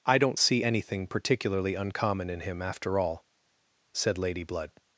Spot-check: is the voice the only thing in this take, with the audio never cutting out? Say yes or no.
yes